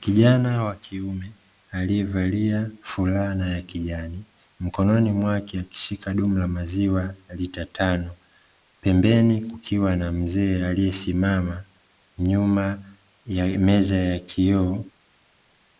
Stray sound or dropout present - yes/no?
no